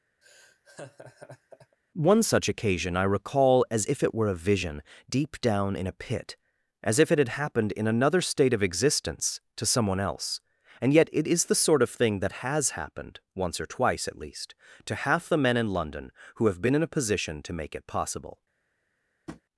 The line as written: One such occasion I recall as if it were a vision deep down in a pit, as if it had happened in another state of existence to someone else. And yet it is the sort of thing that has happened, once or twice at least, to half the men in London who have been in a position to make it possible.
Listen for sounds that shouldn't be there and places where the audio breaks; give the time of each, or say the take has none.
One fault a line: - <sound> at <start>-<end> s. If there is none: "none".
- laugh at 0.2-1.8 s
- tap at 19.3-19.4 s